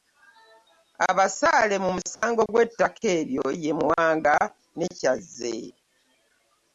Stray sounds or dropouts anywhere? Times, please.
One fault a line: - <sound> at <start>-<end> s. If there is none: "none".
- dropout at 2.2-2.2 s